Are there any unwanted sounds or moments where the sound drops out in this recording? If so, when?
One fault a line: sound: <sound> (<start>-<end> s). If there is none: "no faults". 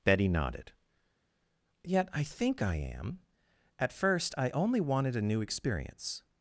no faults